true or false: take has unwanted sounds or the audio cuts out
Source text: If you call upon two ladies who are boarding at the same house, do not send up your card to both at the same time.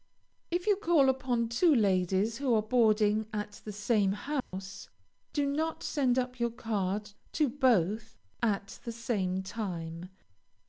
true